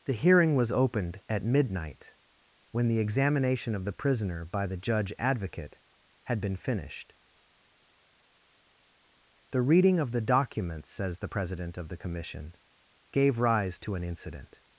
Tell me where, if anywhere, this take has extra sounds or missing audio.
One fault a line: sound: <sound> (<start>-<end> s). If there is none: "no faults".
no faults